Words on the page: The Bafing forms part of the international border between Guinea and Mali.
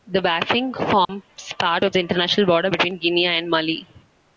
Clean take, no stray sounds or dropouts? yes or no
no